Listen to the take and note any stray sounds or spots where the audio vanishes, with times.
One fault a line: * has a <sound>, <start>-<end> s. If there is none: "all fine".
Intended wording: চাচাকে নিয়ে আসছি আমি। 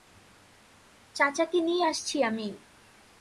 all fine